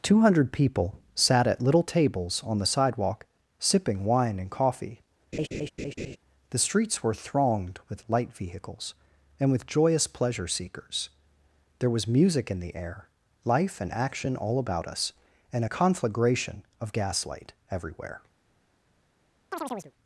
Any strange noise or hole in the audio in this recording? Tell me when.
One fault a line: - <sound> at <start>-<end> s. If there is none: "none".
- laugh at 5.3-6.2 s
- chirp at 19.5-19.9 s